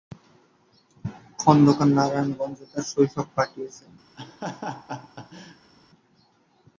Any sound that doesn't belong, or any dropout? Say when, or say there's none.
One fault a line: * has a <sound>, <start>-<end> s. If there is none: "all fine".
* has a laugh, 4.2-5.7 s